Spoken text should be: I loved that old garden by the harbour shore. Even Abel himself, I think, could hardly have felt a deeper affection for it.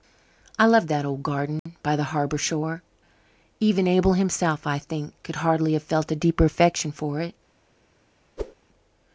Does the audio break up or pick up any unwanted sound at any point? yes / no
yes